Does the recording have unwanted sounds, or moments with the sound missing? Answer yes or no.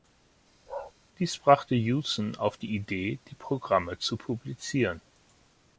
yes